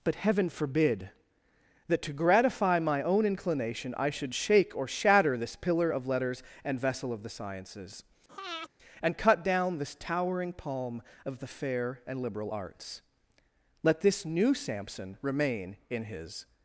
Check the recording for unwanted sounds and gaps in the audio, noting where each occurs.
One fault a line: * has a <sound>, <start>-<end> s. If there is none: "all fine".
* has a breath, 8.3-8.7 s